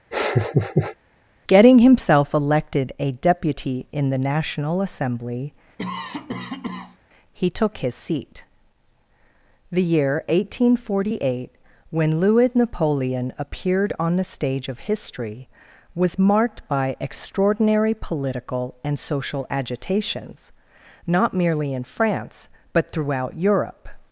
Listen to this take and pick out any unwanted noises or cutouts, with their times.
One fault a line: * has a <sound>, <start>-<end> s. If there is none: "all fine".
* has a laugh, 0.1-1.0 s
* has a cough, 5.8-7.0 s